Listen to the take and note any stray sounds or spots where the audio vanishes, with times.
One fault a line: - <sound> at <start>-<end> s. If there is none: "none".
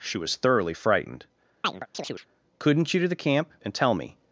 - chirp at 1.6-2.3 s